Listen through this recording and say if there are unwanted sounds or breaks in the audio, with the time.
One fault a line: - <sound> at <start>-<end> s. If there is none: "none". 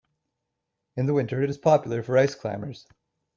none